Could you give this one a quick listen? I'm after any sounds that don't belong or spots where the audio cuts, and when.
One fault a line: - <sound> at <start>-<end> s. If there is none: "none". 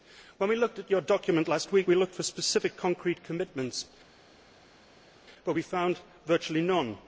none